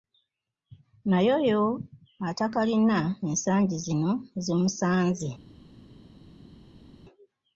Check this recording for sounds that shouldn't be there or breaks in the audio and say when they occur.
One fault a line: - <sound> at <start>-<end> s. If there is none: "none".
none